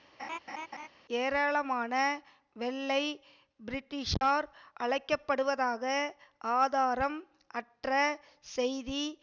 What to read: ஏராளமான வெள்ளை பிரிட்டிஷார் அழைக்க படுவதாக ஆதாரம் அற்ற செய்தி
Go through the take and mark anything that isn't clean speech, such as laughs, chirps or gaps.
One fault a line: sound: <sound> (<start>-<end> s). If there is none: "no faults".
sound: laugh (0.2-0.9 s)